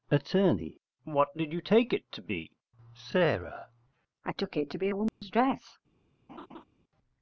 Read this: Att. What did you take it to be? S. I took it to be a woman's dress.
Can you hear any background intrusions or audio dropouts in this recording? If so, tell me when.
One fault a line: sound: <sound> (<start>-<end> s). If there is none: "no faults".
sound: dropout (5.1-5.2 s)
sound: laugh (6.3-6.6 s)